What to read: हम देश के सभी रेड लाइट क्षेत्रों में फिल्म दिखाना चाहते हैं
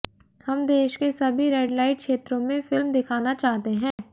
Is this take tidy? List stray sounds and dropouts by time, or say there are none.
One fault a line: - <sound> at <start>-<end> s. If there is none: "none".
- dropout at 3.9-4.0 s